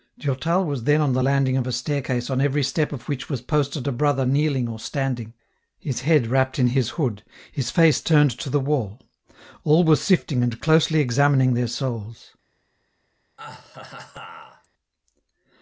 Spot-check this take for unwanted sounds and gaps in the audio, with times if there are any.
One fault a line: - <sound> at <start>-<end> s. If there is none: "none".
- laugh at 13.4-14.7 s